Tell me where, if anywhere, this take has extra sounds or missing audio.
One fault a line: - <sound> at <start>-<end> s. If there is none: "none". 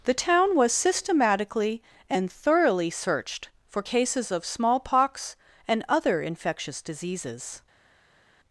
none